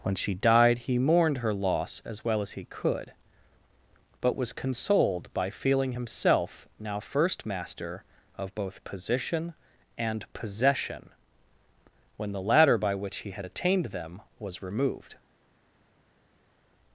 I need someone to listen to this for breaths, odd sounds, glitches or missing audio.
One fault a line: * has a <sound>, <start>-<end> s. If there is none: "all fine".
all fine